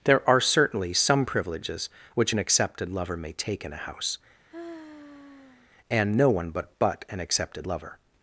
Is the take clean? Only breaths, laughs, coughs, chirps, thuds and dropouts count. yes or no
no